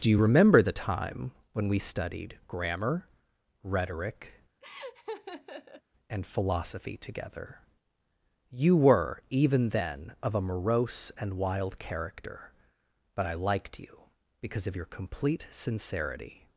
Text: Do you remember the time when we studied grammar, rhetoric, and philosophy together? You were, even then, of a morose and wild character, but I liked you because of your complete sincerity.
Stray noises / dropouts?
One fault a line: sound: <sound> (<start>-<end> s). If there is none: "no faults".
sound: laugh (4.6-5.8 s)